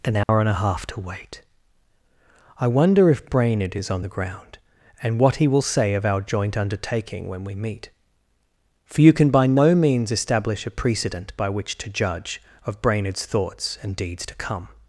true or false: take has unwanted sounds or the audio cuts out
true